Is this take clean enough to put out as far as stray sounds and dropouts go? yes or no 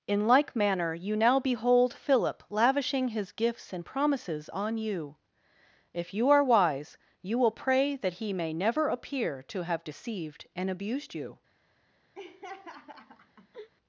no